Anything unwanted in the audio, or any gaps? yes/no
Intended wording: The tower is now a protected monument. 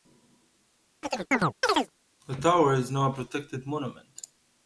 yes